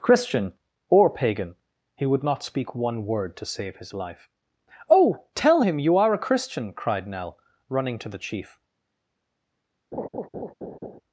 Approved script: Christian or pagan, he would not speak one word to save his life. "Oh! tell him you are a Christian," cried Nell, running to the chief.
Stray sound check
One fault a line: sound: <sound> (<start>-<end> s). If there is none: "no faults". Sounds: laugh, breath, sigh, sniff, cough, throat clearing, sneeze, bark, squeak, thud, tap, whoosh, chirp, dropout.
sound: laugh (9.9-11.0 s)